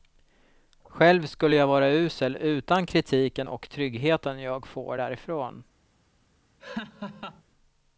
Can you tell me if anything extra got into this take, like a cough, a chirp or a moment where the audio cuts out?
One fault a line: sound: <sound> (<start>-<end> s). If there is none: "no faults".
sound: laugh (6.6-7.4 s)